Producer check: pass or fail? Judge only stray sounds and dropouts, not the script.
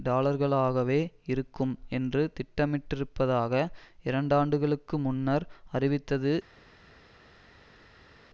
pass